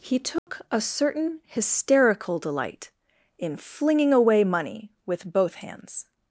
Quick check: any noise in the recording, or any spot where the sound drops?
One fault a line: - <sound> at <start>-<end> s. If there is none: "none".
- dropout at 0.4-0.5 s